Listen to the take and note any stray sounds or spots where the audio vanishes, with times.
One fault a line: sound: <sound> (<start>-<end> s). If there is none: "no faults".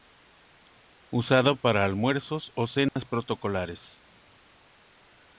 sound: dropout (2.9-3.0 s)